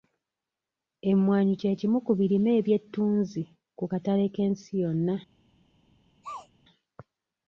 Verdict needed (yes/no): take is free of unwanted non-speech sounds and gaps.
no